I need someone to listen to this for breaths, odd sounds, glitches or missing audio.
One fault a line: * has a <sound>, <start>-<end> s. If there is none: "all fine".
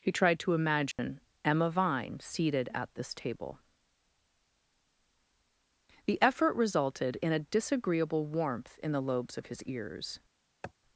* has a dropout, 0.9-1.0 s
* has a sniff, 10.6-10.7 s